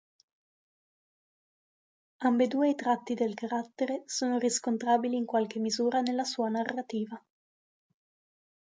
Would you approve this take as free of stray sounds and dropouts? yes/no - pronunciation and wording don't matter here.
yes